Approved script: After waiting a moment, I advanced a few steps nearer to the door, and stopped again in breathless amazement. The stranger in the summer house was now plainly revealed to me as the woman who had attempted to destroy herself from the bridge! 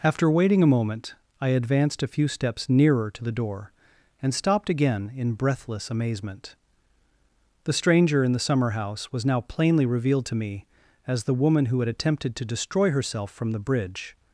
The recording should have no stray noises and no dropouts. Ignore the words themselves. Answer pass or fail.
pass